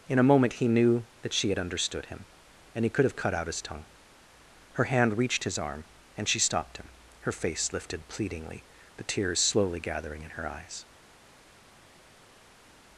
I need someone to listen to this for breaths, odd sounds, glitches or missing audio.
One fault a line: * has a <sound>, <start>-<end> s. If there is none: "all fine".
all fine